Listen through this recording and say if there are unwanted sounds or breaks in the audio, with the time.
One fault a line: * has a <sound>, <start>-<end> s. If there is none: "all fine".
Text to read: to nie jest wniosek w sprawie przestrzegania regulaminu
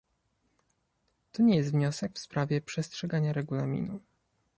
all fine